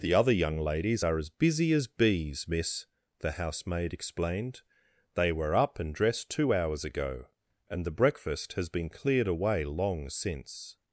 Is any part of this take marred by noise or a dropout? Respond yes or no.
no